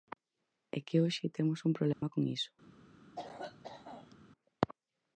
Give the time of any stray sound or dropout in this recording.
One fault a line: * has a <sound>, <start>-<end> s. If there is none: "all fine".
* has a dropout, 1.9-2.0 s
* has a cough, 3.2-4.2 s